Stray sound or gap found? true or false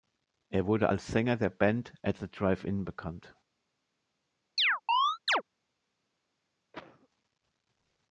true